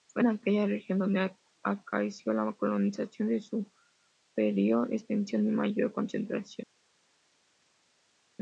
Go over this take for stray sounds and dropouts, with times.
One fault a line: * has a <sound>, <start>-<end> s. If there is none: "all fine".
all fine